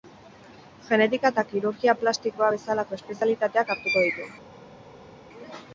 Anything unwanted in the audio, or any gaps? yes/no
no